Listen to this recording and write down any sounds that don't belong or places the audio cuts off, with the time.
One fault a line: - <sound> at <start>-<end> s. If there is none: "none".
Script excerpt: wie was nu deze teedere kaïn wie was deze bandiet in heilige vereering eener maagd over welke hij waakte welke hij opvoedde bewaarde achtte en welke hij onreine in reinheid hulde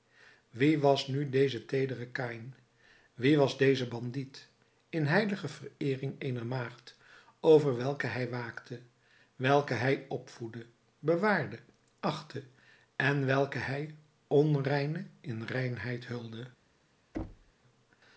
- thud at 17.1-17.5 s